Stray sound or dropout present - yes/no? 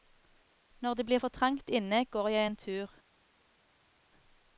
no